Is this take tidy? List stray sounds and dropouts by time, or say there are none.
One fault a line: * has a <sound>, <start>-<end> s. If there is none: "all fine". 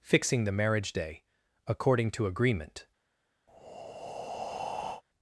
* has a breath, 3.5-5.0 s